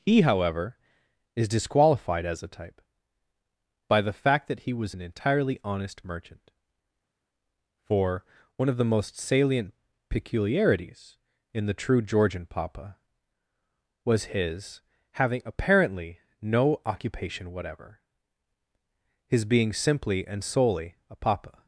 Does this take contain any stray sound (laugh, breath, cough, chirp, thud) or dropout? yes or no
no